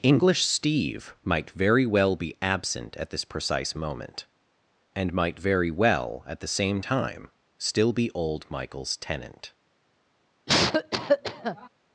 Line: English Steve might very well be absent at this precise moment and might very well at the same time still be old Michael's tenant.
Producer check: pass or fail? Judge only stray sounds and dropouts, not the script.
fail